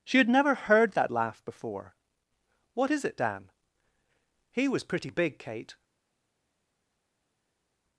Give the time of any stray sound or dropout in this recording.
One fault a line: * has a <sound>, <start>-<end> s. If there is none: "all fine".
all fine